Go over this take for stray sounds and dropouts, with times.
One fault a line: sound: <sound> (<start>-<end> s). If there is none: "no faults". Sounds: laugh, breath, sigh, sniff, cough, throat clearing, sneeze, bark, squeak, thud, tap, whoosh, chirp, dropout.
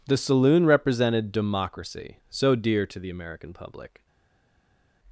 no faults